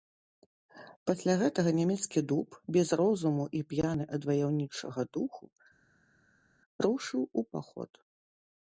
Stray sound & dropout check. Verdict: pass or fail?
pass